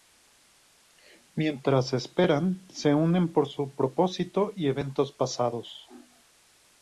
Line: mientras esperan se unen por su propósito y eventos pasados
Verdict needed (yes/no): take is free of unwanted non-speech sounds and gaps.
yes